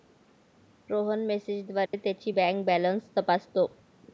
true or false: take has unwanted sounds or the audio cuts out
true